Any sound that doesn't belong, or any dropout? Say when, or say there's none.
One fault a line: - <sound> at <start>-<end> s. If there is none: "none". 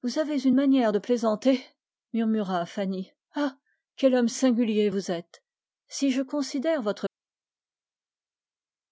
none